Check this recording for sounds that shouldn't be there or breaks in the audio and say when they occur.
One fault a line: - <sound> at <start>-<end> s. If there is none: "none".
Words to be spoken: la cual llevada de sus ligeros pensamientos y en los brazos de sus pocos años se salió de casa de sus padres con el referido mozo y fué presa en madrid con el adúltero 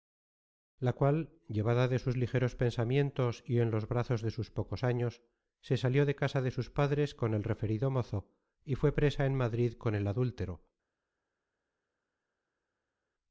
none